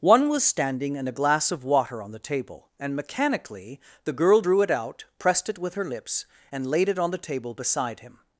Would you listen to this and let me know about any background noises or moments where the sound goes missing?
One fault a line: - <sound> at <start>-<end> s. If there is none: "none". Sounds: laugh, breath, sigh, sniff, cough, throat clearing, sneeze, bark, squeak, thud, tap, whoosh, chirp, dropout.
none